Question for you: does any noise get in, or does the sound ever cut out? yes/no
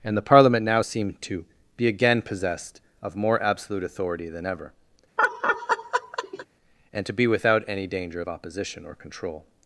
yes